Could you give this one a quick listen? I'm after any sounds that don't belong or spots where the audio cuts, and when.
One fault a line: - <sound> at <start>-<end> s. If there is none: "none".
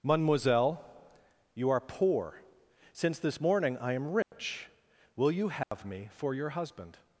- dropout at 4.2-4.3 s
- dropout at 5.6-5.7 s